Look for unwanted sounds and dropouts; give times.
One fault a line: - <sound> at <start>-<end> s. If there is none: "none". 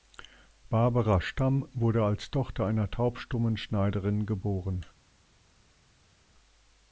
none